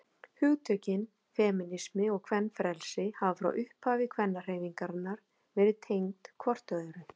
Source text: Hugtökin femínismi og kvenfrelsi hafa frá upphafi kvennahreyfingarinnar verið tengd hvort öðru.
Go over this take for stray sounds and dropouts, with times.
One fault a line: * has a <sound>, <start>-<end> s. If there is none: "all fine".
all fine